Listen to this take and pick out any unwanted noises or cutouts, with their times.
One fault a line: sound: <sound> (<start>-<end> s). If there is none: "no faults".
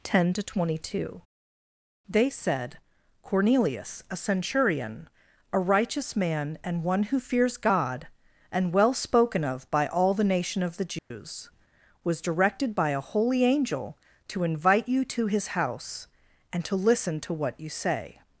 sound: dropout (11.0-11.1 s)